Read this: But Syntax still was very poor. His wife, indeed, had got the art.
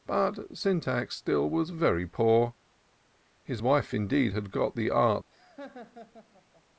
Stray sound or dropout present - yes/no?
yes